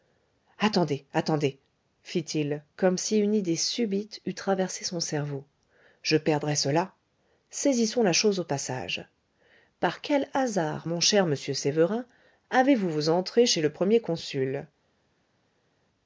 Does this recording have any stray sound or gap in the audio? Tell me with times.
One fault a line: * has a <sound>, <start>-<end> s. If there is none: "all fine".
all fine